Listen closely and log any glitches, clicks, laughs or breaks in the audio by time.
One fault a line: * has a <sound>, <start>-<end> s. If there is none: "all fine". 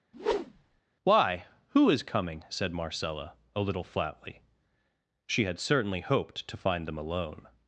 * has a whoosh, 0.1-0.8 s